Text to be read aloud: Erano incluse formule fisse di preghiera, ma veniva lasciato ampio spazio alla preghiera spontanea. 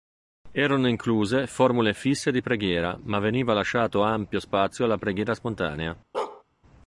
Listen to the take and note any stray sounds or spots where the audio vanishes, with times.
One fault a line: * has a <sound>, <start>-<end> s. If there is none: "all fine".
* has a bark, 6.1-6.4 s